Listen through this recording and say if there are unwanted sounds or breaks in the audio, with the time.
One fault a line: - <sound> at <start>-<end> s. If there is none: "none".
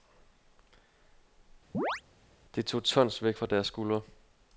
- chirp at 1.7-2.0 s